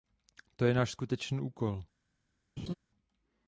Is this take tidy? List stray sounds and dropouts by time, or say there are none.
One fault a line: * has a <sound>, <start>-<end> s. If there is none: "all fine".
* has a laugh, 2.6-2.7 s